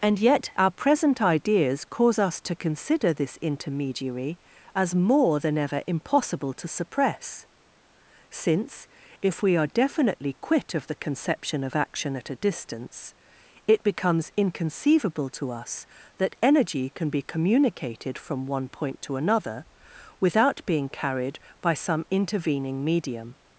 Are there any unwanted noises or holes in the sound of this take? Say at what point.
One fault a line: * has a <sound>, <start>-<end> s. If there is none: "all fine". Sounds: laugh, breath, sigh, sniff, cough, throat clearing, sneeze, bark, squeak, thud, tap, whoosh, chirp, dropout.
all fine